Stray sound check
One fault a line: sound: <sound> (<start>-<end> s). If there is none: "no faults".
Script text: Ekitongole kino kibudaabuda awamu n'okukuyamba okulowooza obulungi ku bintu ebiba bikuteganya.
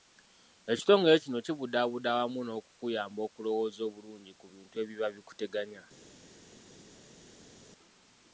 no faults